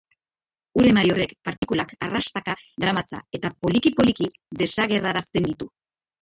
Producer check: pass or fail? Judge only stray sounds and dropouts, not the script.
fail